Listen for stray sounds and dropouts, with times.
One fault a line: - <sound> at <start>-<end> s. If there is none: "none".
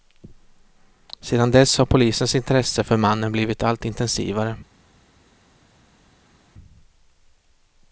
none